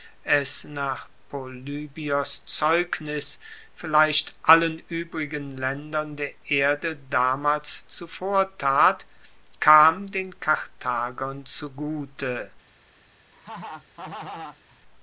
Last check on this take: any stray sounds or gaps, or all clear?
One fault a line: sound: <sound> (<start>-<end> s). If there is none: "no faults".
sound: laugh (13.3-14.8 s)